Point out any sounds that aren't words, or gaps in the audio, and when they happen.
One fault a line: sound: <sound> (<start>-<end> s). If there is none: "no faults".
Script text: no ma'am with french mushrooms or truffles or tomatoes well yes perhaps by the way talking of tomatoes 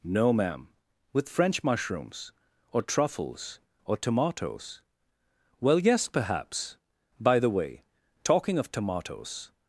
no faults